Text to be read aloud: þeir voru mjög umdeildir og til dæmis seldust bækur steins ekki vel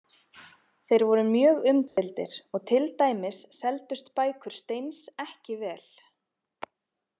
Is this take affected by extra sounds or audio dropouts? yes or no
yes